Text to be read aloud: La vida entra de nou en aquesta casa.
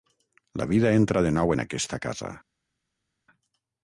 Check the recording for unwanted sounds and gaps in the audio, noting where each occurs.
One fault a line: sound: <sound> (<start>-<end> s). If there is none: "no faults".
no faults